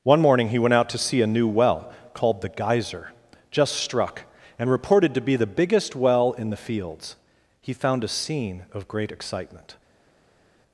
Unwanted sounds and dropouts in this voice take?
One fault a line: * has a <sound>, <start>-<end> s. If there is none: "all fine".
all fine